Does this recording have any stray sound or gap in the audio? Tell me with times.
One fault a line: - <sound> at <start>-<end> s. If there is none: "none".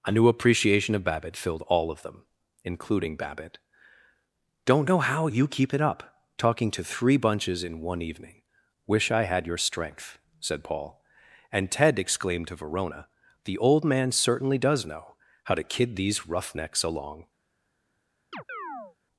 - chirp at 18.3-19.0 s